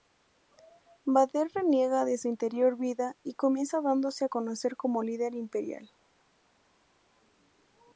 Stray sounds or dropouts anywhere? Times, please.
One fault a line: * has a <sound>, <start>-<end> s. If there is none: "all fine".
all fine